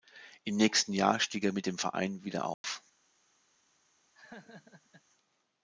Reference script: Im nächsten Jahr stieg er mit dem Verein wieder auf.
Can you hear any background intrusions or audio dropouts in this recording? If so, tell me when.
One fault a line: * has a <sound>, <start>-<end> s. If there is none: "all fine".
* has a dropout, 2.5-2.6 s
* has a laugh, 4.1-5.0 s